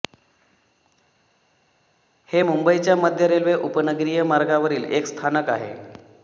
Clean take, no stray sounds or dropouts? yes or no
yes